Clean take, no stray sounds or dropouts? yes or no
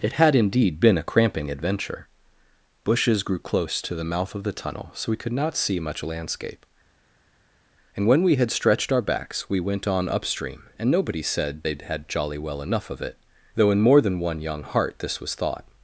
yes